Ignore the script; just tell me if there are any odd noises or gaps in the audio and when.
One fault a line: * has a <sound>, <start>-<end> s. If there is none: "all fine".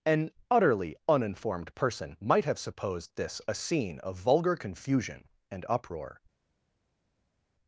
all fine